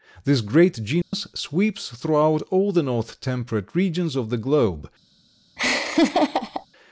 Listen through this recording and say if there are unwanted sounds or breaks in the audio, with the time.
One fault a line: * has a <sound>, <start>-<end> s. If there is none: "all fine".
* has a dropout, 1.0-1.1 s
* has a laugh, 5.6-6.7 s